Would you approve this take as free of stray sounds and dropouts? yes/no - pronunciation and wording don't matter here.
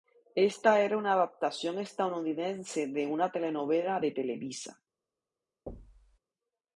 no